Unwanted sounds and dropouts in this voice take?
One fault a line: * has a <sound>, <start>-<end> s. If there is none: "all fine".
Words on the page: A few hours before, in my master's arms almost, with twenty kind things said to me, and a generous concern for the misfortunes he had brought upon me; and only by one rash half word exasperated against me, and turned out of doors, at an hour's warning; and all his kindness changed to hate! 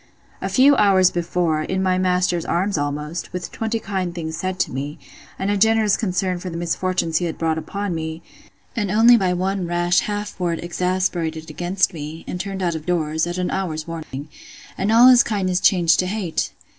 * has a dropout, 14.0-14.1 s